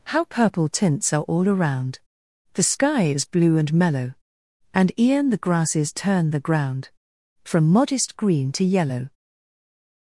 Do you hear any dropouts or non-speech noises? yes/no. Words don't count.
no